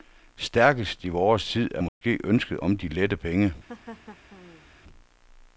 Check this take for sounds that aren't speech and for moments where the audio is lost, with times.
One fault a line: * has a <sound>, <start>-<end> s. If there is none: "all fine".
* has a dropout, 1.9-2.0 s
* has a laugh, 3.7-4.7 s